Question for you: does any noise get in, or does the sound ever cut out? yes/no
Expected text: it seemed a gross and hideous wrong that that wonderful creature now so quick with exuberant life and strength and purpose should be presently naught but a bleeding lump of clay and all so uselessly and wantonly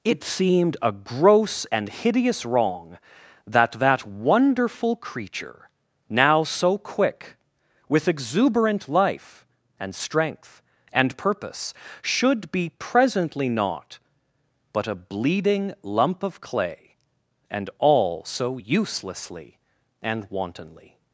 no